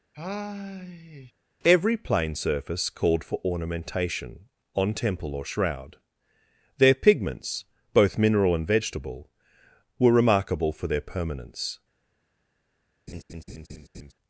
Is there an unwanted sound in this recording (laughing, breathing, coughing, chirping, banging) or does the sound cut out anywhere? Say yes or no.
yes